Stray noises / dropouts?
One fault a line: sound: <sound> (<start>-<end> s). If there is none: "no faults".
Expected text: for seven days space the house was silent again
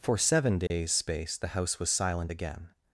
sound: dropout (0.7-0.7 s)